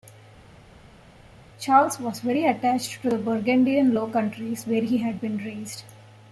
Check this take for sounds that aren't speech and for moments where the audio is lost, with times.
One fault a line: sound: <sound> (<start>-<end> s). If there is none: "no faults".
no faults